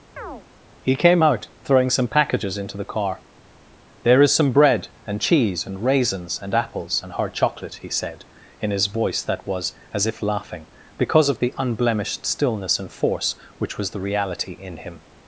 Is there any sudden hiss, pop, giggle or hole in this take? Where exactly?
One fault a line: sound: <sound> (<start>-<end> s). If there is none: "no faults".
sound: chirp (0.2-0.4 s)